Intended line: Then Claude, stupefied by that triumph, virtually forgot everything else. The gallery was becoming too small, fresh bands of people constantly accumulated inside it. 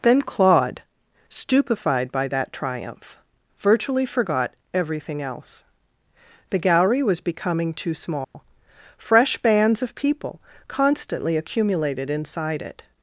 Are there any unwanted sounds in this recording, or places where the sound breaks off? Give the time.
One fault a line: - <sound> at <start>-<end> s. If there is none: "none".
- dropout at 8.2-8.3 s